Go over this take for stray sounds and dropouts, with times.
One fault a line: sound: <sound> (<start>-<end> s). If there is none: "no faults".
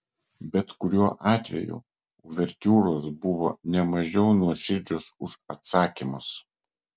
no faults